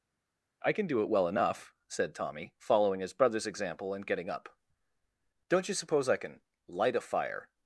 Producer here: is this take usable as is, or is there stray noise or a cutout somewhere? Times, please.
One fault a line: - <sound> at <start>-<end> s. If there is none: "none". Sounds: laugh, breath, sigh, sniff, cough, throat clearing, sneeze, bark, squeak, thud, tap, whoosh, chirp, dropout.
none